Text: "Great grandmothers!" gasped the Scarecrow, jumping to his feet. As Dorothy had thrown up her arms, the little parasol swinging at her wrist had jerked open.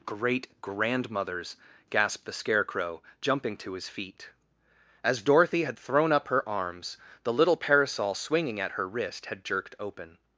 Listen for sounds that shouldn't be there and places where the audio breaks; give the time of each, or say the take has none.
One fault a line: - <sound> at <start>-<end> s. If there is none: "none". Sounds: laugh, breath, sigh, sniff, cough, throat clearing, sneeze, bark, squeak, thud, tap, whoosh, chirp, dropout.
none